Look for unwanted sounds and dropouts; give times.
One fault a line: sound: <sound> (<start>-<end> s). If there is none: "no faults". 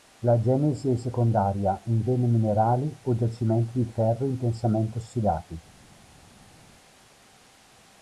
no faults